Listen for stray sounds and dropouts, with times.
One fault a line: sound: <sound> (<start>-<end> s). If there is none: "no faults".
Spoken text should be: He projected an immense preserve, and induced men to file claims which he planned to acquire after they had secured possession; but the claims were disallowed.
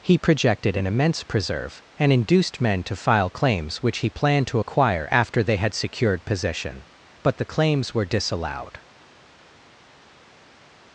no faults